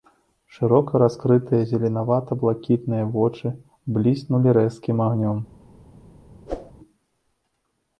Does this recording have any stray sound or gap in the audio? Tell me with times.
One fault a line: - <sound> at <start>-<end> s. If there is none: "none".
- whoosh at 6.5-6.7 s